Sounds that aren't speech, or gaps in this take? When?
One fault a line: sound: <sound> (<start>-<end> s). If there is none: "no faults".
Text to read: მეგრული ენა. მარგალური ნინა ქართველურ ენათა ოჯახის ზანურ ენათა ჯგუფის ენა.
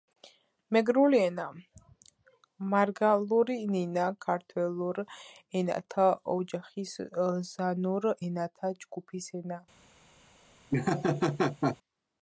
sound: laugh (10.7-11.8 s)